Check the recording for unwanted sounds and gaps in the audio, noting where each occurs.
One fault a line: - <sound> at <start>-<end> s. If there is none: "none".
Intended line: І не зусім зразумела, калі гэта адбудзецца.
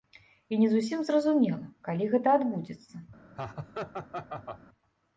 - laugh at 3.3-4.6 s